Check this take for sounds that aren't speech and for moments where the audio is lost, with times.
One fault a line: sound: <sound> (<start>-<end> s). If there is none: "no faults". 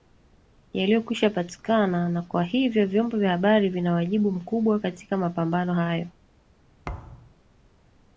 sound: thud (6.8-7.4 s)